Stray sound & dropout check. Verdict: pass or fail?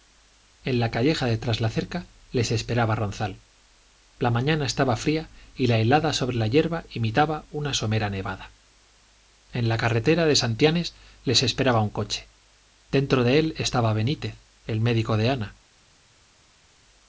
pass